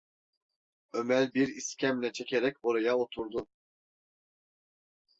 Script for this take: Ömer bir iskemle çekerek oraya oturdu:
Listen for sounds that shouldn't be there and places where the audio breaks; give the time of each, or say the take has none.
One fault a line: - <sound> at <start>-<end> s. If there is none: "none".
none